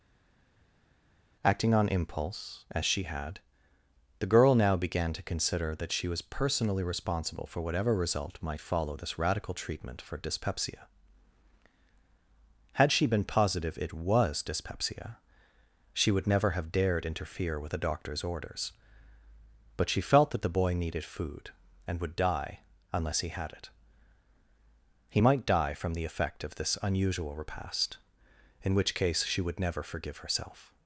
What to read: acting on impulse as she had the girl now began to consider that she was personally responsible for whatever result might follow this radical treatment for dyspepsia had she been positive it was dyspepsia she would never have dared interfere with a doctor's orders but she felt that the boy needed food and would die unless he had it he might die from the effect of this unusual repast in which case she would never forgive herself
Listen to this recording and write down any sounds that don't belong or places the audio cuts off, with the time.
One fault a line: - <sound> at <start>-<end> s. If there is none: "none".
none